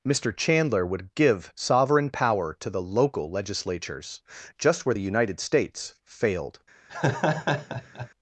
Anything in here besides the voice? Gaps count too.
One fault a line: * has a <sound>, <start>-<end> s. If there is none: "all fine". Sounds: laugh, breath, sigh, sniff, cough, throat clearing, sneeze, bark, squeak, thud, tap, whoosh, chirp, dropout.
* has a laugh, 6.9-8.1 s